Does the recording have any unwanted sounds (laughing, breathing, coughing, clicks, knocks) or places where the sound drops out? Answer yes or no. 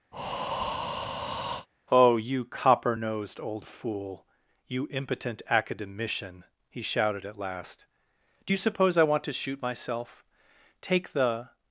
yes